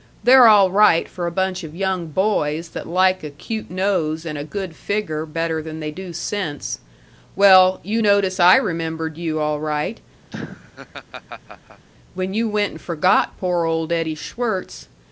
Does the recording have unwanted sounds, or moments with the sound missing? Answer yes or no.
yes